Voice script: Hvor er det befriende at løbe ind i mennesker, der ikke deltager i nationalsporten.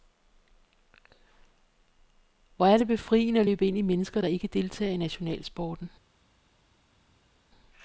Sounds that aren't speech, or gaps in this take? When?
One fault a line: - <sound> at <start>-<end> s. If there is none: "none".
none